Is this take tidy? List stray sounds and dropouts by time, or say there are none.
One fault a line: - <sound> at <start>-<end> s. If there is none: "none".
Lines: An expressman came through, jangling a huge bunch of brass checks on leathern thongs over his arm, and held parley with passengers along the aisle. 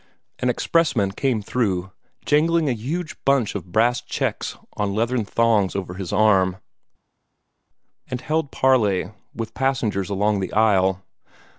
none